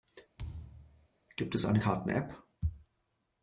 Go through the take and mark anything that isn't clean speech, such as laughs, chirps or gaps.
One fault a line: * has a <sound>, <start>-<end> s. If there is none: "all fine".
* has a thud, 0.4-1.1 s